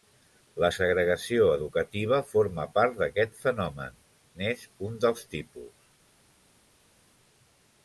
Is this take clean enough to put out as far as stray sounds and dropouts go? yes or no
yes